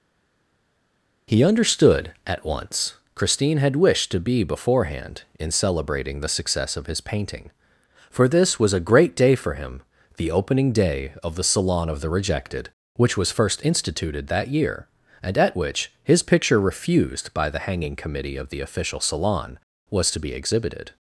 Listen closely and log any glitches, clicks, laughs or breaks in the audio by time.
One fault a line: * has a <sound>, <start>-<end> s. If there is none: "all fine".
all fine